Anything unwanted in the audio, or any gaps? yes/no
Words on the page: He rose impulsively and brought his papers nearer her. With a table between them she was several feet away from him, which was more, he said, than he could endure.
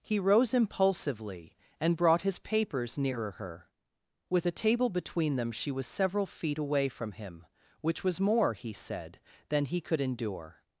no